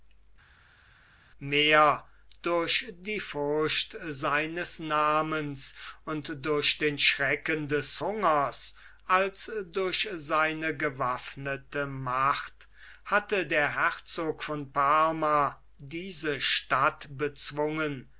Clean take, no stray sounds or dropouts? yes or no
yes